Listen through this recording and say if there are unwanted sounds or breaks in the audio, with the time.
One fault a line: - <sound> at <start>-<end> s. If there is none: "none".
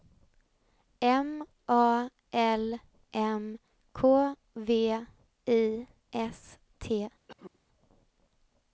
- cough at 7.3-7.6 s